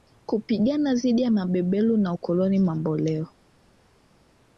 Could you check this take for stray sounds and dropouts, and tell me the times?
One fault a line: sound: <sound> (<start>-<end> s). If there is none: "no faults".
no faults